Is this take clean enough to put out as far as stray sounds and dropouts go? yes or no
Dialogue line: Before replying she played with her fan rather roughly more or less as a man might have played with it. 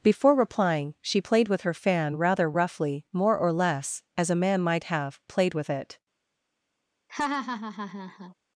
no